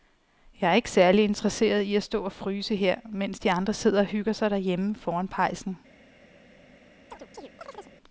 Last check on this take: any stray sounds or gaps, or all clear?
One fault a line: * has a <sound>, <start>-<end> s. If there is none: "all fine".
* has a chirp, 7.1-8.0 s